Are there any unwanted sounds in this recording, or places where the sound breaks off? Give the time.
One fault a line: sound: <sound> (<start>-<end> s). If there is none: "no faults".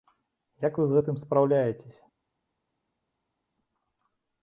no faults